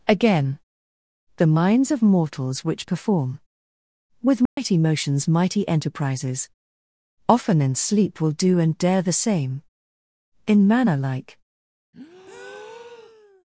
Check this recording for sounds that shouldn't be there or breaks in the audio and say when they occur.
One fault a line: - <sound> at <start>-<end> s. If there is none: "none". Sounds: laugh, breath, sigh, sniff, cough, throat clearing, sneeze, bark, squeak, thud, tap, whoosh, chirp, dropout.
- dropout at 4.5-4.6 s
- breath at 11.9-13.4 s